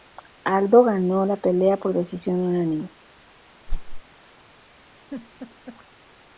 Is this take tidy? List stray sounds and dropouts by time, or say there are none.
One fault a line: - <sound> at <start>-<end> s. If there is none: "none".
- whoosh at 3.7-4.0 s
- laugh at 5.0-5.8 s